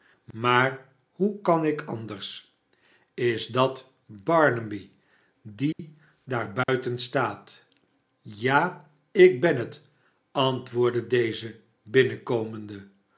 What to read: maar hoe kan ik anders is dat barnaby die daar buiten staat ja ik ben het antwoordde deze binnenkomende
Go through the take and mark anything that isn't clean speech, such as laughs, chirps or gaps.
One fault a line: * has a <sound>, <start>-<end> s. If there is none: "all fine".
* has a dropout, 5.7-5.8 s
* has a dropout, 6.6-6.7 s